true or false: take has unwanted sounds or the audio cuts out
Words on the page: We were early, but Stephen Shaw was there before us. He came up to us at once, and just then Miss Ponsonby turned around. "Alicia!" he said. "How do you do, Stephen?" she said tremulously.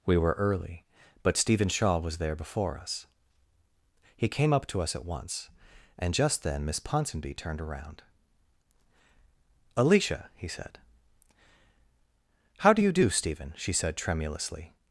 false